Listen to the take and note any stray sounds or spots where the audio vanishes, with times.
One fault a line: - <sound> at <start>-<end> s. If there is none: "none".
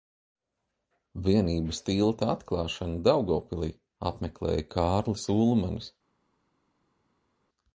none